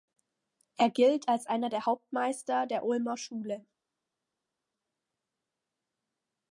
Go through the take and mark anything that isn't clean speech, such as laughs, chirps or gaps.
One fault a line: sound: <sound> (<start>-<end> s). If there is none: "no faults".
no faults